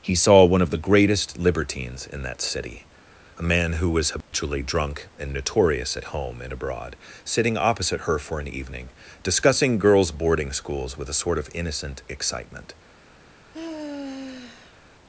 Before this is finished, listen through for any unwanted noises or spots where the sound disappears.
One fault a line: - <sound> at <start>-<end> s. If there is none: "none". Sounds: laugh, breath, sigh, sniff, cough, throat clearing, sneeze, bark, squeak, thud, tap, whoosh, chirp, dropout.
- dropout at 4.2-4.3 s
- sigh at 13.5-14.8 s